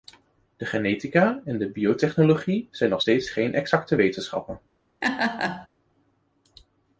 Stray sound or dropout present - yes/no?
yes